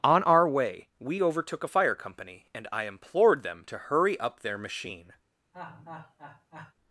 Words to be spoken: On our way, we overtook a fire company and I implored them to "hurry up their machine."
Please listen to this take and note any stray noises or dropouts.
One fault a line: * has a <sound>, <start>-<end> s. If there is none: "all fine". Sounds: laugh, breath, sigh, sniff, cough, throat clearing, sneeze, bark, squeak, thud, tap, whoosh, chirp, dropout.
* has a laugh, 5.5-6.7 s